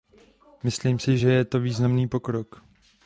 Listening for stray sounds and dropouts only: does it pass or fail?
pass